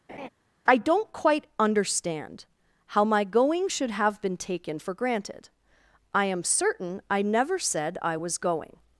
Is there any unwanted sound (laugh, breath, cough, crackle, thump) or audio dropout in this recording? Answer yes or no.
yes